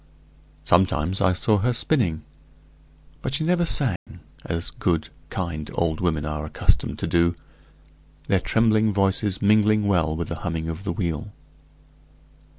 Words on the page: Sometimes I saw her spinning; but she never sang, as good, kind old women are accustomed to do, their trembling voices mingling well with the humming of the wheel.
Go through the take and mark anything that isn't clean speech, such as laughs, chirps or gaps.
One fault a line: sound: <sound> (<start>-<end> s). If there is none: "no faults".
sound: dropout (4.0-4.1 s)